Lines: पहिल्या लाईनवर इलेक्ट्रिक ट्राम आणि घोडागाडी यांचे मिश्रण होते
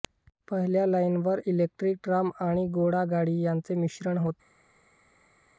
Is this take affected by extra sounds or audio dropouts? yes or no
no